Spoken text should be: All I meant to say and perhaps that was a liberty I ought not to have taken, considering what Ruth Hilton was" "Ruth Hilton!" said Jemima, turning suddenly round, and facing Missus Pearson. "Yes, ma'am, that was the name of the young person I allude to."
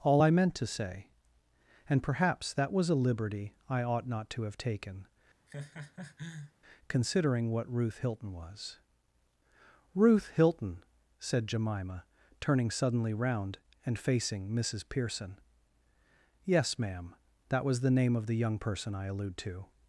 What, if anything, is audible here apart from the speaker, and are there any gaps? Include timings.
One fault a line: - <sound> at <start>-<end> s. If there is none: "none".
- laugh at 5.5-6.5 s